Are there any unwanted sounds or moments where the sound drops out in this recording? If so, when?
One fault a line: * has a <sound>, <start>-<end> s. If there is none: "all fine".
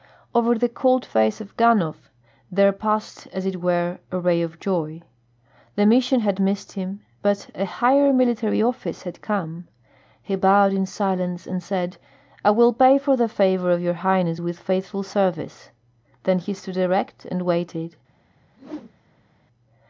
* has a whoosh, 18.5-19.3 s